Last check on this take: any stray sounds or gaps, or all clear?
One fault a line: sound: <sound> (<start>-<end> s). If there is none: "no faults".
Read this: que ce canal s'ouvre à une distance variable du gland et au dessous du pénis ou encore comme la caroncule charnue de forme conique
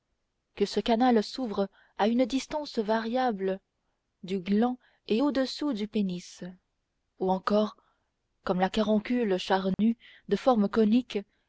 sound: dropout (9.7-9.8 s)